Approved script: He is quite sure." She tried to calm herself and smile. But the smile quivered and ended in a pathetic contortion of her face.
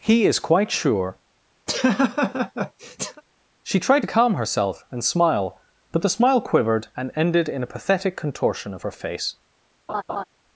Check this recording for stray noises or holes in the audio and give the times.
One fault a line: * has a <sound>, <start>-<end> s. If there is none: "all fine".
* has a laugh, 1.7-3.2 s
* has a laugh, 9.9-10.2 s